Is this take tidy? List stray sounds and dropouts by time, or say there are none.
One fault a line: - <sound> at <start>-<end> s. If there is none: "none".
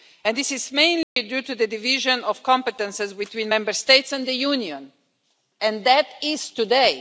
- dropout at 1.0-1.2 s